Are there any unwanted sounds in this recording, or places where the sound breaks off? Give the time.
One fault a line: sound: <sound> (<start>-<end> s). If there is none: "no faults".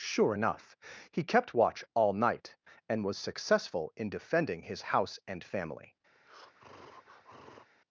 sound: breath (6.1-7.7 s)